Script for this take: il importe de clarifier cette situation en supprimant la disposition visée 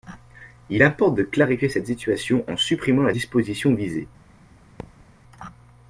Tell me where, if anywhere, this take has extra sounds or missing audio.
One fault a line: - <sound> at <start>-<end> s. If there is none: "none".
- thud at 4.8-5.1 s